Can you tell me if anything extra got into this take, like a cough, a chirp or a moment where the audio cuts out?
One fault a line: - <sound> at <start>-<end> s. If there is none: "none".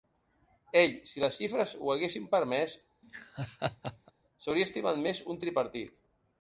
- laugh at 3.0-4.1 s